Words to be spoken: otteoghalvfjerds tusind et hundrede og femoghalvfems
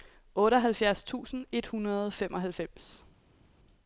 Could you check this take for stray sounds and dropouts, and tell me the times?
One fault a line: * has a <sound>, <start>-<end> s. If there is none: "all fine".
all fine